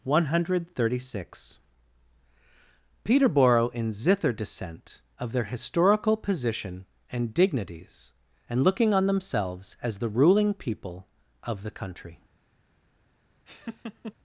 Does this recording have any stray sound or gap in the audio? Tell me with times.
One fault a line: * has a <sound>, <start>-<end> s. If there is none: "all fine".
* has a laugh, 13.5-14.1 s